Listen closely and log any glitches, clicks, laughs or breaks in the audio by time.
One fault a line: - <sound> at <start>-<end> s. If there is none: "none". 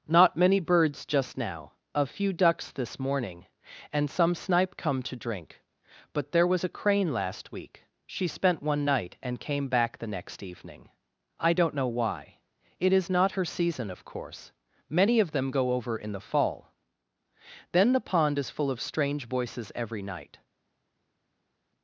none